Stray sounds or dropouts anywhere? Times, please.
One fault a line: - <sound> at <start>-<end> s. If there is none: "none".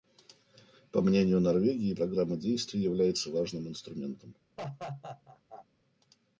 - laugh at 4.6-5.7 s